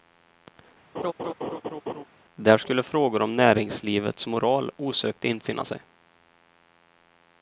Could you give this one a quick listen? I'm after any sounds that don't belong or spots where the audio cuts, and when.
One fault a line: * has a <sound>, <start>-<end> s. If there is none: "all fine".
* has a laugh, 0.9-2.0 s